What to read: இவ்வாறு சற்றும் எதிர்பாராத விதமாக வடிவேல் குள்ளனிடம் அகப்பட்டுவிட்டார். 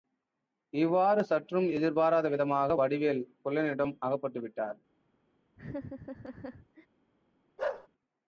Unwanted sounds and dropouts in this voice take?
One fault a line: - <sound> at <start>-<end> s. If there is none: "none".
- laugh at 5.6-6.9 s
- bark at 7.6-7.9 s